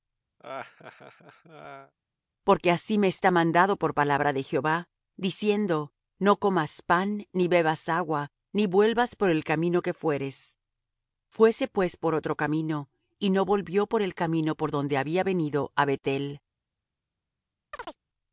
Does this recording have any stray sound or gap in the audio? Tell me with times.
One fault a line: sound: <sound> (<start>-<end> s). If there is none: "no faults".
sound: laugh (0.4-1.9 s)
sound: chirp (17.7-18.0 s)